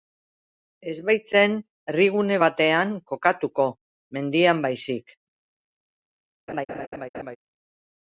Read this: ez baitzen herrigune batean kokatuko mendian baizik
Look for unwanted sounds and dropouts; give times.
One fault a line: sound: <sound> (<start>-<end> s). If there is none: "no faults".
sound: laugh (6.5-7.4 s)